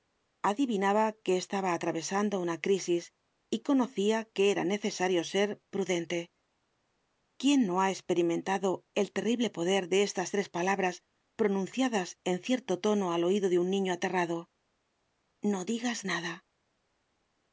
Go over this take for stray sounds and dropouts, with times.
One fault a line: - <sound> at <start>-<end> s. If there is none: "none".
none